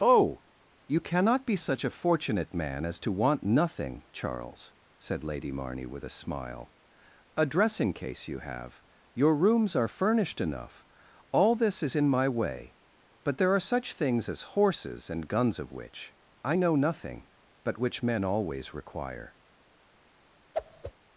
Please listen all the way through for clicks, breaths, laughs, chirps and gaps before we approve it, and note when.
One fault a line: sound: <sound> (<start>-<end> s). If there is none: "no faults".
sound: whoosh (20.5-20.9 s)